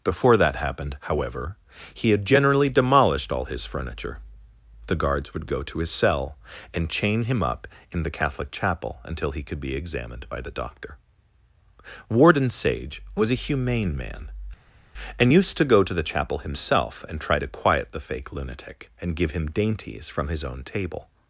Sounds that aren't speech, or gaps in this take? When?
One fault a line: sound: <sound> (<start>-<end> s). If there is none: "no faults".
no faults